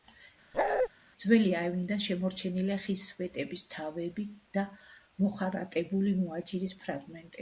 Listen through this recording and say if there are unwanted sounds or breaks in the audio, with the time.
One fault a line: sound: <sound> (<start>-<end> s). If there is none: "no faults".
sound: bark (0.5-0.9 s)